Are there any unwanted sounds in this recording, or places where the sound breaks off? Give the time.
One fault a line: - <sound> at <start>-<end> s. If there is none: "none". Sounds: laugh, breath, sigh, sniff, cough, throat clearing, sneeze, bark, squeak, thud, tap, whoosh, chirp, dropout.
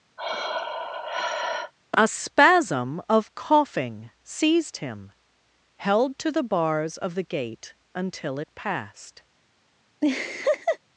- sigh at 0.2-1.7 s
- laugh at 10.0-10.8 s